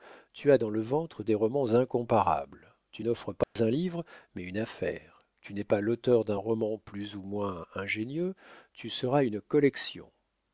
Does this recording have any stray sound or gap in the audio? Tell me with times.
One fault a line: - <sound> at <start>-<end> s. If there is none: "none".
- dropout at 3.4-3.6 s